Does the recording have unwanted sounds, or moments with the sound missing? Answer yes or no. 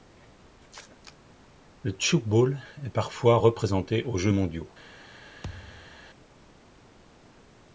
yes